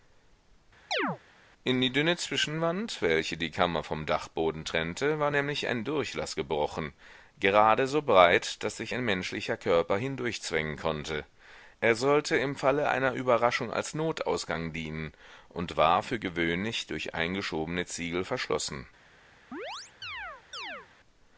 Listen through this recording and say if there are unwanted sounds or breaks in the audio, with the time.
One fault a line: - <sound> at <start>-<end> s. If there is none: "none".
- chirp at 0.9-1.2 s
- chirp at 19.5-20.9 s